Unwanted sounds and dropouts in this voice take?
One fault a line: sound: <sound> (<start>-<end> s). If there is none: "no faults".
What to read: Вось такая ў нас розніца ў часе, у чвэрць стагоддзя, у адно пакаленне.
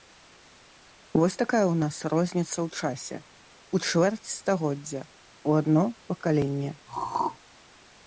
sound: throat clearing (6.9-7.4 s)